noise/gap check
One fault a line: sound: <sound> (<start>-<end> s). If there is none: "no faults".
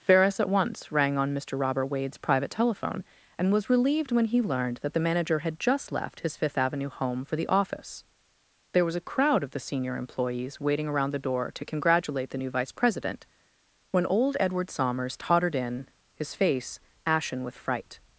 no faults